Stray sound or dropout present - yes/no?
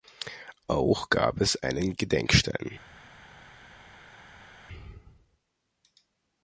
no